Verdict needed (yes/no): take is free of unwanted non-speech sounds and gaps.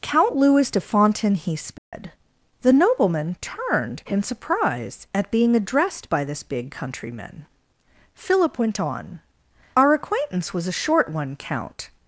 no